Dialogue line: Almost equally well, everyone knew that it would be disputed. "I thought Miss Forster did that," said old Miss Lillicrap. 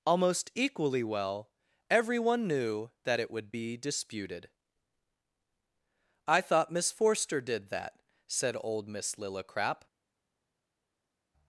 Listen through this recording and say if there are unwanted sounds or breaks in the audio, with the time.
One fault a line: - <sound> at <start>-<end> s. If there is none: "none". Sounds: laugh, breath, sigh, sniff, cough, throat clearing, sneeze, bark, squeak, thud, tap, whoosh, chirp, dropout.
none